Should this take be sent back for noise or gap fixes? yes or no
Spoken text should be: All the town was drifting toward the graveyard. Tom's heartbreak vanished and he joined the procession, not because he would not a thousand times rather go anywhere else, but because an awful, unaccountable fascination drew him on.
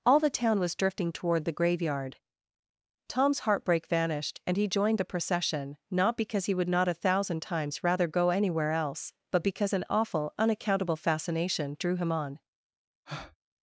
yes